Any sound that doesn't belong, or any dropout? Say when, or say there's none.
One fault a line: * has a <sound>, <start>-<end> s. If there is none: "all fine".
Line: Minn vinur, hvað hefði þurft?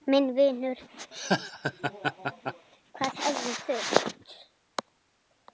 * has a laugh, 1.1-2.7 s